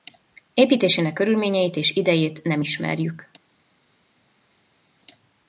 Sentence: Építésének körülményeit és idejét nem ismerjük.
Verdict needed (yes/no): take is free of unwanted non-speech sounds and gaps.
yes